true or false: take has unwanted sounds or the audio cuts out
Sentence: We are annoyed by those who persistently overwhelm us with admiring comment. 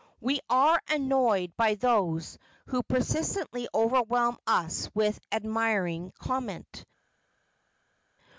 false